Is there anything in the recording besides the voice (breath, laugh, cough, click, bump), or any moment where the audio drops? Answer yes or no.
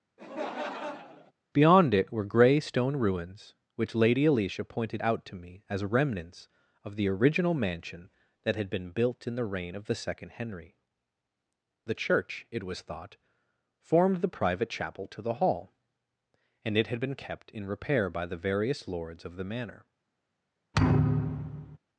yes